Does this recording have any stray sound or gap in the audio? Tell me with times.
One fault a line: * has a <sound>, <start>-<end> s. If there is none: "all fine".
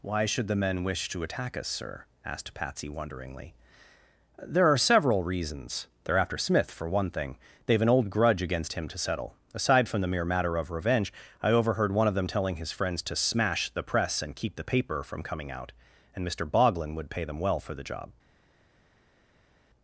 all fine